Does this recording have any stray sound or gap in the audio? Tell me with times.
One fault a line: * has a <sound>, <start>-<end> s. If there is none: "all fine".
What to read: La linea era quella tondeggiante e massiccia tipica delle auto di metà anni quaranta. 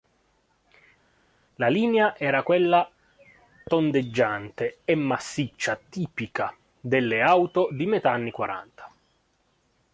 all fine